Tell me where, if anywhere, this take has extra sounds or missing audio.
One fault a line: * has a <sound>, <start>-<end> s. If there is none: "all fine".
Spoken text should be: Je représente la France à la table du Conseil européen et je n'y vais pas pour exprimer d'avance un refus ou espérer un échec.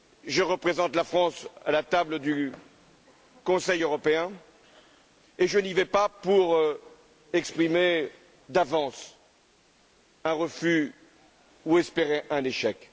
all fine